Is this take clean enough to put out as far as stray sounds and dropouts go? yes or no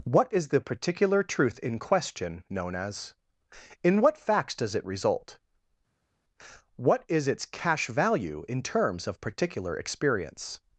yes